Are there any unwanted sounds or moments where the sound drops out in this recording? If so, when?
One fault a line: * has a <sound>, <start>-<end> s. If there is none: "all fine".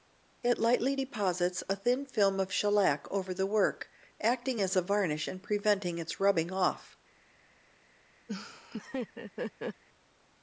* has a laugh, 8.3-9.8 s